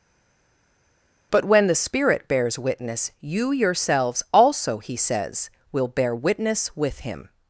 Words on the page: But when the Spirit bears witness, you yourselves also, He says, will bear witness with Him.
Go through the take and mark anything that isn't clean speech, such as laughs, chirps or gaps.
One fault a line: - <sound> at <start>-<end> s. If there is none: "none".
none